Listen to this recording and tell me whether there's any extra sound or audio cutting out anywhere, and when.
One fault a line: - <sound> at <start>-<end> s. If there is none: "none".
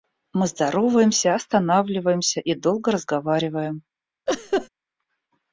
- laugh at 4.3-4.7 s